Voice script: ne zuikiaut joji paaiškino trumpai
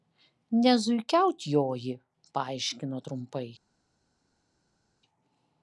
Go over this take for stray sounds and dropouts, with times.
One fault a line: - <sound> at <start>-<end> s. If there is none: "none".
none